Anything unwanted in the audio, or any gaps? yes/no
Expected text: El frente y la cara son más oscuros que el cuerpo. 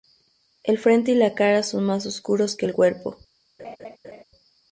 yes